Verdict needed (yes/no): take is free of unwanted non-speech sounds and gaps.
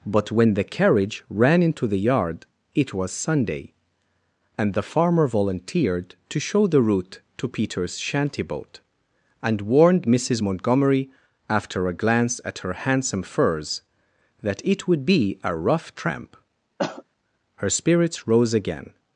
no